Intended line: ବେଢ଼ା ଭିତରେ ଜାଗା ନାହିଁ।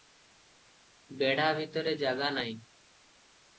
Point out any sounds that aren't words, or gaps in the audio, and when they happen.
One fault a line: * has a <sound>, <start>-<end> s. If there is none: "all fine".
all fine